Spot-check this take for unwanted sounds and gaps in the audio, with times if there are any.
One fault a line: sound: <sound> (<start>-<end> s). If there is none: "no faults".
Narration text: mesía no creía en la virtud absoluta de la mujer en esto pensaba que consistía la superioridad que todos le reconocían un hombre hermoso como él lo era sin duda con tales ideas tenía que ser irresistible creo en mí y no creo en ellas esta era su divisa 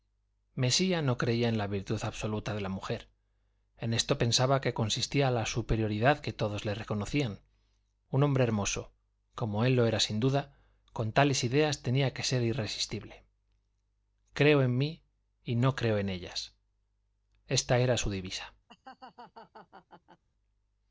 sound: laugh (18.7-20.2 s)